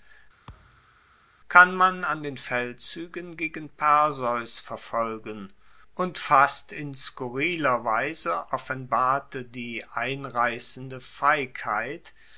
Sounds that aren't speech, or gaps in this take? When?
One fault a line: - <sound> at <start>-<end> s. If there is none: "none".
- thud at 0.5-1.0 s